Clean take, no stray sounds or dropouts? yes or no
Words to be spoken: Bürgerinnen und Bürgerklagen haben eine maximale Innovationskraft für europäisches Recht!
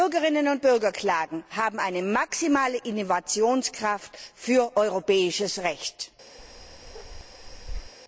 no